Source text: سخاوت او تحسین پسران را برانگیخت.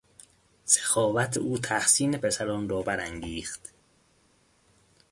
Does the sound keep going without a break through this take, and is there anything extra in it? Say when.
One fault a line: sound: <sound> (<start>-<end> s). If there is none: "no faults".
no faults